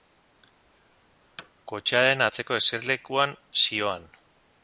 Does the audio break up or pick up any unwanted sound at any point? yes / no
yes